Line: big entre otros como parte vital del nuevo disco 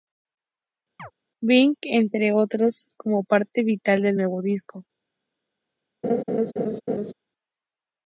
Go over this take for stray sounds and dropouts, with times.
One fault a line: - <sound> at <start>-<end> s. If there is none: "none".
- chirp at 1.0-1.1 s
- laugh at 6.0-7.1 s